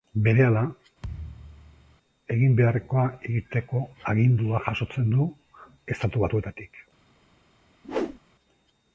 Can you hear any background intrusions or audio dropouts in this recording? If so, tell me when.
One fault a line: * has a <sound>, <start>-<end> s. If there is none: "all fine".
* has a thud, 1.0-2.0 s
* has a whoosh, 7.8-8.2 s